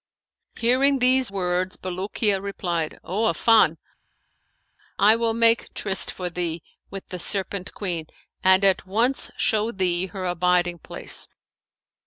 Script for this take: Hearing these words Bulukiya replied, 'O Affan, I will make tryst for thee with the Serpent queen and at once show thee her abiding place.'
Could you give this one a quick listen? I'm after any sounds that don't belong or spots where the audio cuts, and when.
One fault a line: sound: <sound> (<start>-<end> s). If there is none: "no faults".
no faults